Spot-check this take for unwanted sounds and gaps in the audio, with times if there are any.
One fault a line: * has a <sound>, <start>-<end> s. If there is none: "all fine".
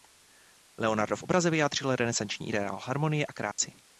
* has a dropout, 3.5-3.6 s